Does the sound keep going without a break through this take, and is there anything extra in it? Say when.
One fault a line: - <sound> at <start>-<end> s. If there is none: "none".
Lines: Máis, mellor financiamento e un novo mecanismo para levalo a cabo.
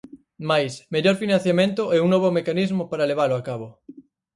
none